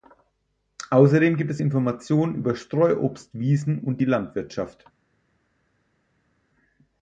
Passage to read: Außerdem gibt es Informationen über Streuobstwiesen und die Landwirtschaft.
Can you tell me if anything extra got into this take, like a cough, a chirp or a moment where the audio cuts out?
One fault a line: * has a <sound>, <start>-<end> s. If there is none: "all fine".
all fine